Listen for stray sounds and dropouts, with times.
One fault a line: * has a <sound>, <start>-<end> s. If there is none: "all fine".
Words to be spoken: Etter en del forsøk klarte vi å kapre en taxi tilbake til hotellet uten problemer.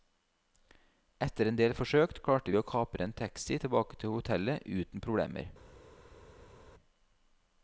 all fine